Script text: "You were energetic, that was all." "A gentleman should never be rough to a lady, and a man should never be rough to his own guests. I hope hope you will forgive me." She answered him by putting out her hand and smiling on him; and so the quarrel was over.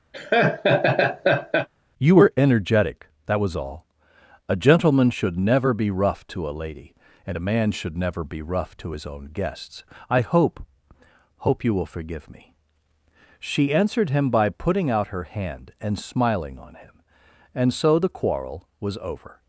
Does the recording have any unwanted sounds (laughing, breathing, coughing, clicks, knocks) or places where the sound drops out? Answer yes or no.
yes